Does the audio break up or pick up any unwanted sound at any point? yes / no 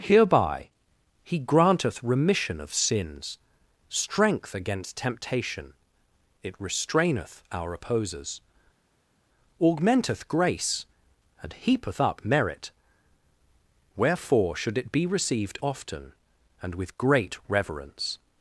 no